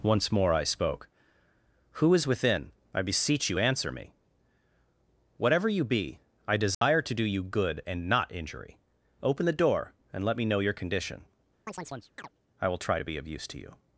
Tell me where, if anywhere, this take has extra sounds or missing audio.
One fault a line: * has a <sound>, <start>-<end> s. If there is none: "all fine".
* has a dropout, 6.7-6.8 s
* has a chirp, 11.7-12.3 s